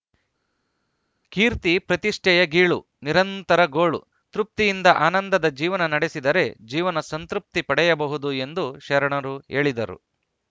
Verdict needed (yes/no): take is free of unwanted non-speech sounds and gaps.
yes